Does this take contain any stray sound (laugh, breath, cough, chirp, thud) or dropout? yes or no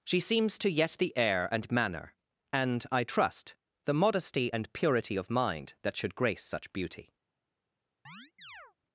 yes